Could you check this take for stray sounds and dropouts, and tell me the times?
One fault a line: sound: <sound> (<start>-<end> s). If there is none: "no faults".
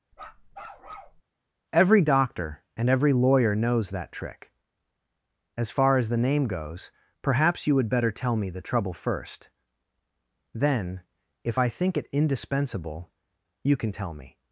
sound: bark (0.1-1.2 s)